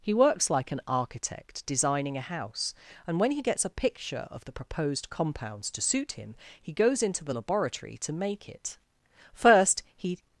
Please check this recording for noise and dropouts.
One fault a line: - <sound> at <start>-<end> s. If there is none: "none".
none